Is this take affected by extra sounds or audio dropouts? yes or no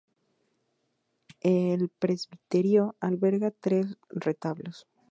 no